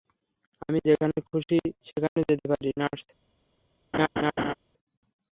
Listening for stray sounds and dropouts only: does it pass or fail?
fail